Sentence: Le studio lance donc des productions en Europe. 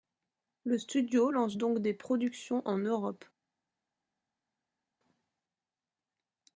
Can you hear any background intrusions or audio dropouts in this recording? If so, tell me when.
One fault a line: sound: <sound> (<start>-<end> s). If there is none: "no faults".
no faults